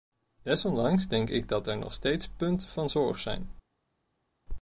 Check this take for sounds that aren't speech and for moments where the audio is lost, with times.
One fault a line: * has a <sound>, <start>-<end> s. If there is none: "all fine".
all fine